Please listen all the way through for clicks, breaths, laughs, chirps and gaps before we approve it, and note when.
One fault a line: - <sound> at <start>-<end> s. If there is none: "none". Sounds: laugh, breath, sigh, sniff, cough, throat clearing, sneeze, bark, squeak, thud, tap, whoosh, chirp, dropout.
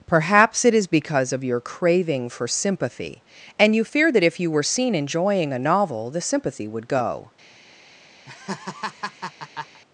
- laugh at 8.2-9.8 s